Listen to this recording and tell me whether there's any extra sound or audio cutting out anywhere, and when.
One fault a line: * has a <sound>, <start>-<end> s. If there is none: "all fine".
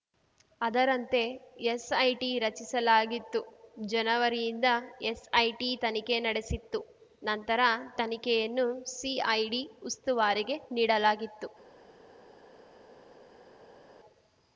all fine